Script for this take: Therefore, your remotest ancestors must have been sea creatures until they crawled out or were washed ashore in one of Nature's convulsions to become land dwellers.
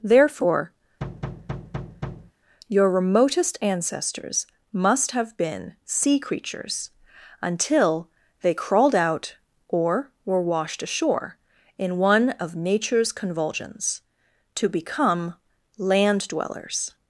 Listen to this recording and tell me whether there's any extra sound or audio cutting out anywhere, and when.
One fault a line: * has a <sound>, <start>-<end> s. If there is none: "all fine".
* has a thud, 1.0-2.3 s